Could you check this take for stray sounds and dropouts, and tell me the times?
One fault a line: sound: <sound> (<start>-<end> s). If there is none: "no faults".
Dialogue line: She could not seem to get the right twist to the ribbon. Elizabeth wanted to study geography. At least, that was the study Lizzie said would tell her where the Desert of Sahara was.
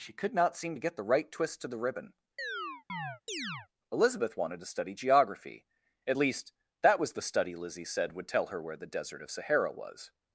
sound: chirp (2.4-3.7 s)